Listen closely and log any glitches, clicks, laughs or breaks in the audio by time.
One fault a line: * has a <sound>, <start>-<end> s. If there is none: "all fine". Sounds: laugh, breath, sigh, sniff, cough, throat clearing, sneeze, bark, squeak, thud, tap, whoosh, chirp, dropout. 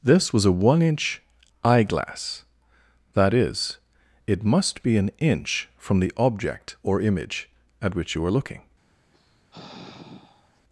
* has a sigh, 9.1-10.6 s